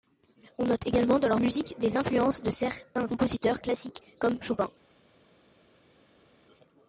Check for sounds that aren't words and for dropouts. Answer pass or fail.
pass